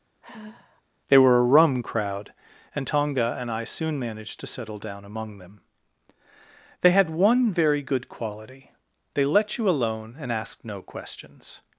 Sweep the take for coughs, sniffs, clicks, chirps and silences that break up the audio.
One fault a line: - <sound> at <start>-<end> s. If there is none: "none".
- sigh at 0.2-0.8 s